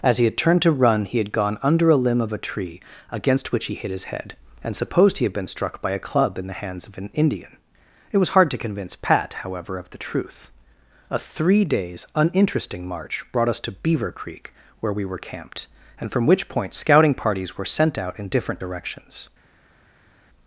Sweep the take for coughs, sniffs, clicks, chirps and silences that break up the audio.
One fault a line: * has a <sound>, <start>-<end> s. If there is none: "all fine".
all fine